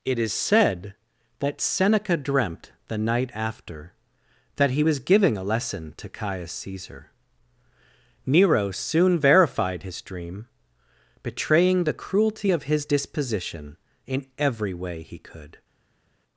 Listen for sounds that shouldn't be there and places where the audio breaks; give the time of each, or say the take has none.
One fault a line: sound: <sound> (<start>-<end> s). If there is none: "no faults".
no faults